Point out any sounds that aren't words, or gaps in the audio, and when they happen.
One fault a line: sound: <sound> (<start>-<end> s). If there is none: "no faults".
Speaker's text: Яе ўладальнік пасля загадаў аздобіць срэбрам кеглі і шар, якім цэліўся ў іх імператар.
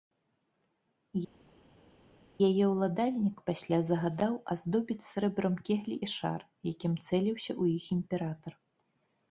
no faults